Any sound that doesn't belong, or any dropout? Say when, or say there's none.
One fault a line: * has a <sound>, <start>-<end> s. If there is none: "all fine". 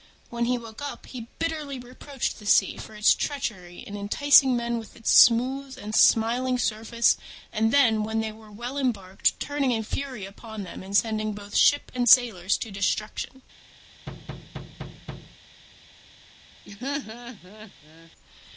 * has a thud, 14.1-15.4 s
* has a laugh, 16.6-18.1 s